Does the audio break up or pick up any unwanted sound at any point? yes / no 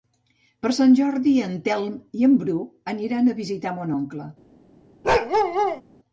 yes